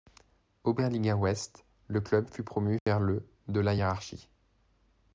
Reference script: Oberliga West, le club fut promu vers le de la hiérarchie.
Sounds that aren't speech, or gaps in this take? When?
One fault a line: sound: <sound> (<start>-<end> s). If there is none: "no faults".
sound: dropout (2.8-2.9 s)